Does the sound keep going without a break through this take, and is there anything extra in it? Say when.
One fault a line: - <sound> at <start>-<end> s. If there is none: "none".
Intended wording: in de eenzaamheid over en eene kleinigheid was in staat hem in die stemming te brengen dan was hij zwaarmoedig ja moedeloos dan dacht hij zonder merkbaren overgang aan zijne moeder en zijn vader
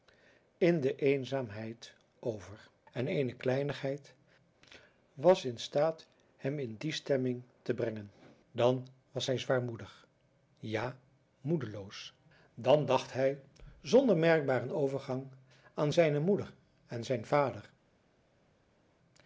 none